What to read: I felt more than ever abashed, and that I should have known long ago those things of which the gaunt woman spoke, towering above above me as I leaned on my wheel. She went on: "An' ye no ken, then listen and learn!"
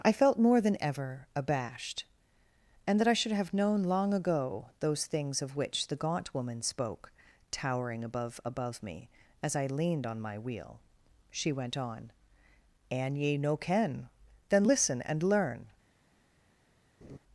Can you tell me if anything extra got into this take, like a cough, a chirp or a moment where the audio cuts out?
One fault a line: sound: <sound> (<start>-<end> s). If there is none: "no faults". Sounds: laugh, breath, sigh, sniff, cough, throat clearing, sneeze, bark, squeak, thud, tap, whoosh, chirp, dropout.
sound: laugh (17.0-17.2 s)